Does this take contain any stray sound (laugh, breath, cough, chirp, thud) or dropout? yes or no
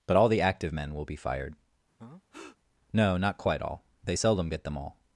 yes